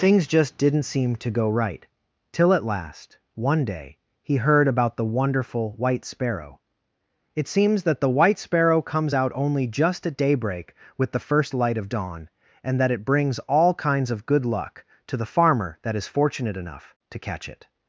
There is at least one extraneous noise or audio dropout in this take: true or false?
false